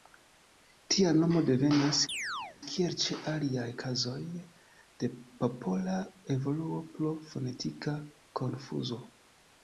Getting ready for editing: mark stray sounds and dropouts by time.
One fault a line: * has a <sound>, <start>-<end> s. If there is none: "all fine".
* has a chirp, 2.1-2.6 s